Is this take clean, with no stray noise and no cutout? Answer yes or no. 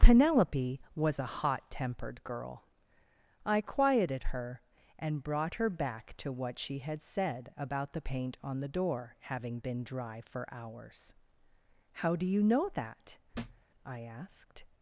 no